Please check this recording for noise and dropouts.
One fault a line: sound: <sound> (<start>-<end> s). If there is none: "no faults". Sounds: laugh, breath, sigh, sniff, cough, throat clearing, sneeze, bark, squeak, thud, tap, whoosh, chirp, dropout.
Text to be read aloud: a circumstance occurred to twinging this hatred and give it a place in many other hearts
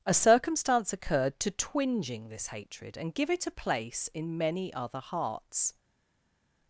no faults